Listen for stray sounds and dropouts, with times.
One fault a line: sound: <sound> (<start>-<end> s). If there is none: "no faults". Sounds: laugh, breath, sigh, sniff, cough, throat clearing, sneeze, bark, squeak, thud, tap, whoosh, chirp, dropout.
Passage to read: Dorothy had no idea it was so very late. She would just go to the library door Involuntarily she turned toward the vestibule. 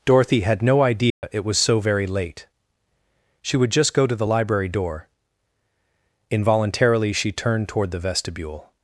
sound: dropout (1.1-1.2 s)